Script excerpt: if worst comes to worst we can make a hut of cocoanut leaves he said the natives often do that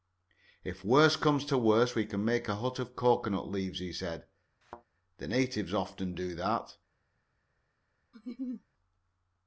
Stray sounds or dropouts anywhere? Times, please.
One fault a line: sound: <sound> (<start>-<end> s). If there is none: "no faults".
sound: thud (4.6-4.8 s)
sound: laugh (8.1-8.6 s)